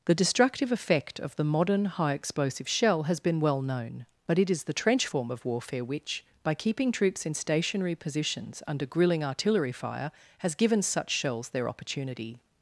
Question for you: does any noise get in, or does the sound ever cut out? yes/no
no